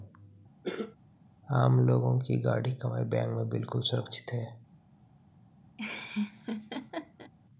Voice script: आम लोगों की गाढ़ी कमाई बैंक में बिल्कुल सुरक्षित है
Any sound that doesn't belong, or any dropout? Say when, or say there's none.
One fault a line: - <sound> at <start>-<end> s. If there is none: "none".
- cough at 0.6-1.0 s
- laugh at 5.8-7.3 s